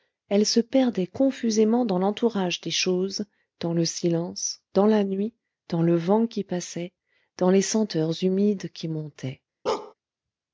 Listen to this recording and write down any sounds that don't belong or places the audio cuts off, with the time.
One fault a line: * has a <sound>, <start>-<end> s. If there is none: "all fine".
* has a bark, 9.7-9.9 s